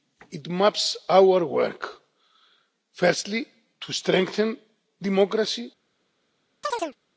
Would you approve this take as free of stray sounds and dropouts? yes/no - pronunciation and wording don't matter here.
no